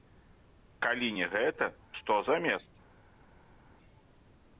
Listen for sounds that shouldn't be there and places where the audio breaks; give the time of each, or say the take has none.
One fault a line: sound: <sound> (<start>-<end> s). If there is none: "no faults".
no faults